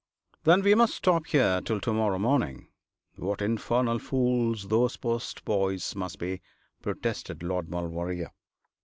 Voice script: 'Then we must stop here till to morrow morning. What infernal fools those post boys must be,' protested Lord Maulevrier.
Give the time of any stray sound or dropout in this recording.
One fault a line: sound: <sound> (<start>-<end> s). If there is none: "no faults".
no faults